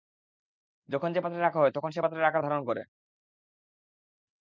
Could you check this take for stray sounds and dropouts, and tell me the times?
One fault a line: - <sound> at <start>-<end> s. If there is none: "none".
none